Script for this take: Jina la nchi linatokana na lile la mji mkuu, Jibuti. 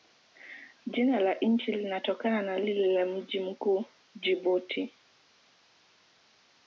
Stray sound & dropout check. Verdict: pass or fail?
pass